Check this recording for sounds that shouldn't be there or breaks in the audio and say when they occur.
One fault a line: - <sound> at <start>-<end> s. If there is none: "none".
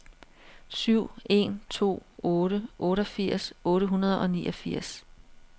none